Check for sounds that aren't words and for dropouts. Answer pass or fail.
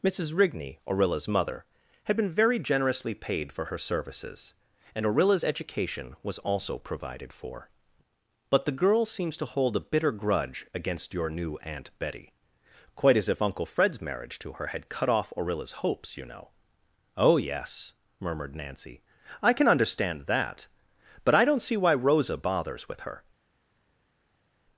pass